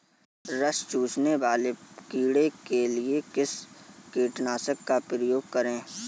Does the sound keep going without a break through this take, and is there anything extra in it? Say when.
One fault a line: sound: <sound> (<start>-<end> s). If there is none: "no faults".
no faults